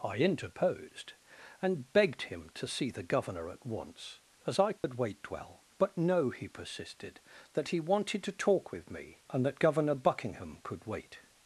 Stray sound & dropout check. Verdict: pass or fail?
fail